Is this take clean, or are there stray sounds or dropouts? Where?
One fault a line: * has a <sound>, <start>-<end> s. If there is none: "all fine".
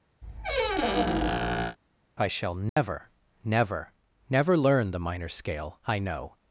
* has a squeak, 0.2-1.8 s
* has a dropout, 2.7-2.8 s